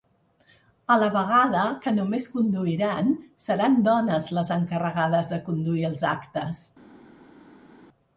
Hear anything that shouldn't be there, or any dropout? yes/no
no